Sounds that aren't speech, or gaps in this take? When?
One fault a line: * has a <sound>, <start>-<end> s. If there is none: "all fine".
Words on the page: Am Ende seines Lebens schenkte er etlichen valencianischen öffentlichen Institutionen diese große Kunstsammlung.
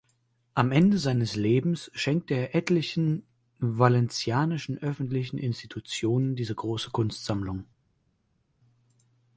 all fine